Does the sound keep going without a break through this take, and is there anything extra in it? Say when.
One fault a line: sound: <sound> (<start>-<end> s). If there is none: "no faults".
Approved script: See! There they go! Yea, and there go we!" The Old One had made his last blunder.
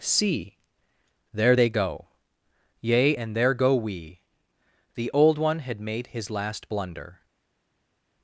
no faults